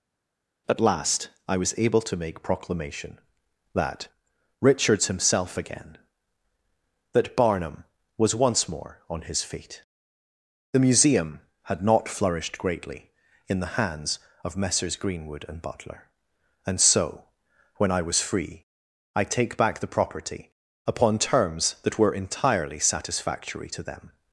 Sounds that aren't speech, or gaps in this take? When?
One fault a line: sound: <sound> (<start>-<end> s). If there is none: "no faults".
no faults